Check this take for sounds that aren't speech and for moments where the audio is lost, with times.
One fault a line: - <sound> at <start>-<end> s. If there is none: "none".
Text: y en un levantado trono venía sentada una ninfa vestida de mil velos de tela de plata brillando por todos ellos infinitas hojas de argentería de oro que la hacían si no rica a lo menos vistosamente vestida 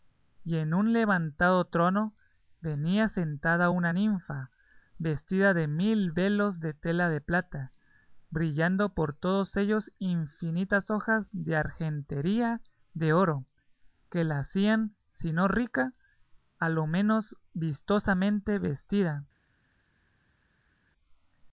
none